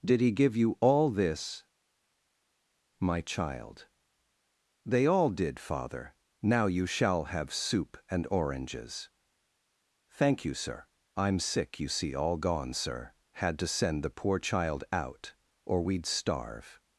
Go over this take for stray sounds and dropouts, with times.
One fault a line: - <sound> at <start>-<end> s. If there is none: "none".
none